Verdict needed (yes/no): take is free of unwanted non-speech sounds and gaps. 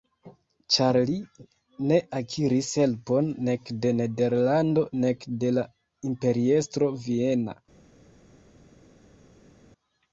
yes